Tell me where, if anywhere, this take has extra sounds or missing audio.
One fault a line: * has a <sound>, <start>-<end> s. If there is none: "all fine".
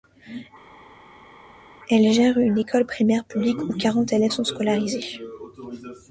all fine